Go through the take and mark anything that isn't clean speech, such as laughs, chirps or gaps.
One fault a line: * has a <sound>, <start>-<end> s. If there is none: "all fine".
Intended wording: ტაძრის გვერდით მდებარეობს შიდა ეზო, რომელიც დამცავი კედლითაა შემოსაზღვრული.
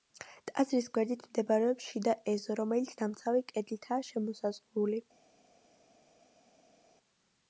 all fine